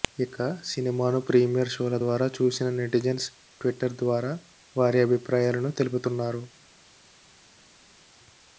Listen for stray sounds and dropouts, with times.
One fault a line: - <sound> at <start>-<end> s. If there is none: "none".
none